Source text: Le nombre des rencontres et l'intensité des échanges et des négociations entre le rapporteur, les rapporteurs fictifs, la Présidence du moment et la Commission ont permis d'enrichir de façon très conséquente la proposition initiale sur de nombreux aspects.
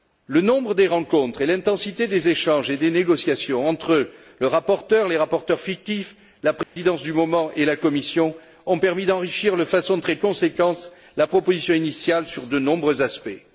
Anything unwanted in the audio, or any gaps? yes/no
yes